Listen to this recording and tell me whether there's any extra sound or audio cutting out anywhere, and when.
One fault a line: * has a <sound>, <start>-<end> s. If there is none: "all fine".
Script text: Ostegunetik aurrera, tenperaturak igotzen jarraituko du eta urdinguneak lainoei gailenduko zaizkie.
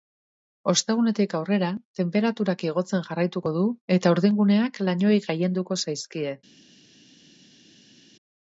all fine